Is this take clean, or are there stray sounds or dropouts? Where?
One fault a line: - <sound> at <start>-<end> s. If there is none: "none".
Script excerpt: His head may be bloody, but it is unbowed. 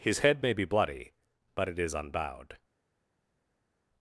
none